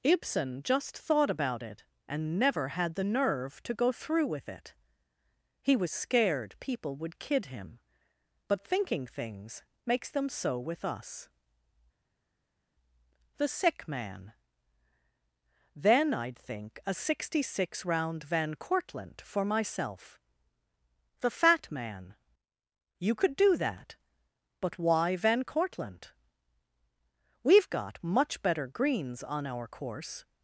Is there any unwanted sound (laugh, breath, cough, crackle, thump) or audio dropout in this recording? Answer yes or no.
no